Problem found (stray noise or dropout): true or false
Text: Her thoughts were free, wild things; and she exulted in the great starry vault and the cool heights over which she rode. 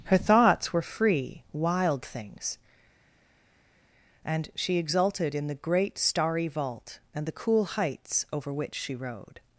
false